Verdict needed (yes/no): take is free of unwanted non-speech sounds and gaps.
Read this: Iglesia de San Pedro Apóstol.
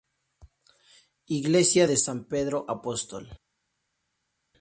yes